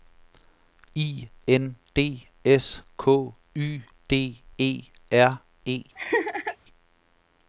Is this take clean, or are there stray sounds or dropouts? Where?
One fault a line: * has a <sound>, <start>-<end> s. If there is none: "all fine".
* has a laugh, 6.0-6.6 s